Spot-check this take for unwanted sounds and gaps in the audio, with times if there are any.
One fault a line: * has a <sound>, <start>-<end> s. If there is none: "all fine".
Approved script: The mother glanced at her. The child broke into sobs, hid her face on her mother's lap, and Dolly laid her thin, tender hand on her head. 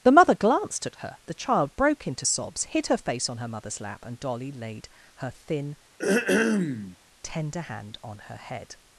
* has a throat clearing, 6.0-7.0 s